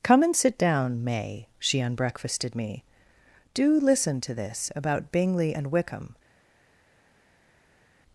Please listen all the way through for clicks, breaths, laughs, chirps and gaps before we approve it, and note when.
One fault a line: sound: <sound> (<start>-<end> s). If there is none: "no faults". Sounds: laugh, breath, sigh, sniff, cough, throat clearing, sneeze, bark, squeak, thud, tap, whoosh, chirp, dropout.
no faults